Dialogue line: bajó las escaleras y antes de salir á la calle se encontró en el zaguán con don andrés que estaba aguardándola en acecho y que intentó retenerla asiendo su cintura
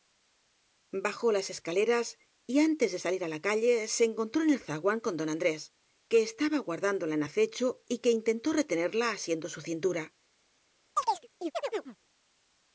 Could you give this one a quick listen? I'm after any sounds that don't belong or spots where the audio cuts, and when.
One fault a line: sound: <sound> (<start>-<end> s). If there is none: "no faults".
sound: chirp (11.0-12.0 s)